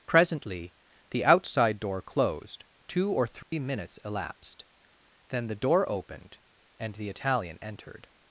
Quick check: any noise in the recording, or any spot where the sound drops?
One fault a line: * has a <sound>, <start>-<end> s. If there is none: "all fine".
* has a dropout, 3.4-3.5 s